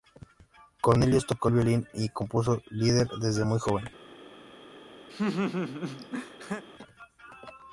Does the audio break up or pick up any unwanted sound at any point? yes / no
yes